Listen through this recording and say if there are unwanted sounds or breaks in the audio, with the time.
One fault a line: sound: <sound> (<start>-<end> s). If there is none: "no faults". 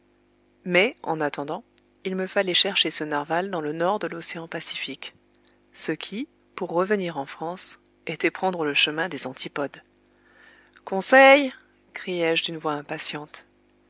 no faults